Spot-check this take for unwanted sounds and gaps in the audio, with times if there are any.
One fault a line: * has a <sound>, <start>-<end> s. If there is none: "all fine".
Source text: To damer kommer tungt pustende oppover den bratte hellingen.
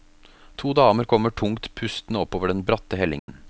* has a dropout, 3.2-3.3 s